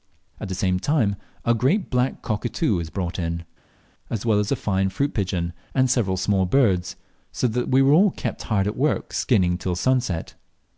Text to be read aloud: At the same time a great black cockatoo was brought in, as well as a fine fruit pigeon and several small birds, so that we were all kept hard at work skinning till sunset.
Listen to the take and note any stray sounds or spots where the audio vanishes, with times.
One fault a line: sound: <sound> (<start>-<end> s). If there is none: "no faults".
no faults